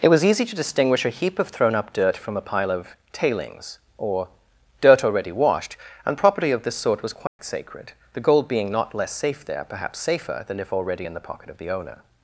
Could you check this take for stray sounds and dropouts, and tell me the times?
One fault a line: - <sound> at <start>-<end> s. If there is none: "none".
- dropout at 7.3-7.4 s